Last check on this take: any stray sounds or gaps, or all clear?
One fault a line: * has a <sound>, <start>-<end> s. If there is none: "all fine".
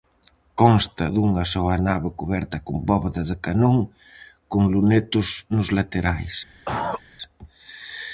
* has a cough, 6.6-7.0 s